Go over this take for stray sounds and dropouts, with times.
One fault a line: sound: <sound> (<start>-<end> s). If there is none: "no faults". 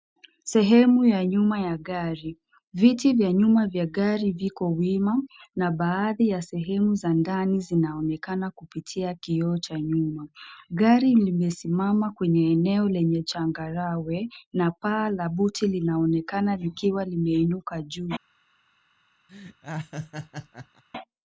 sound: laugh (19.3-20.8 s)